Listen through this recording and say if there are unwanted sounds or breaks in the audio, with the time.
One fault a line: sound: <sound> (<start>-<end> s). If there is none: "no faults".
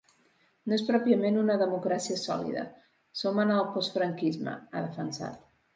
no faults